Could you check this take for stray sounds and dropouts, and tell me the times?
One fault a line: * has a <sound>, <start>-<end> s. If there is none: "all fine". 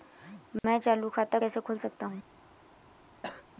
* has a dropout, 0.6-0.6 s
* has a cough, 3.2-3.5 s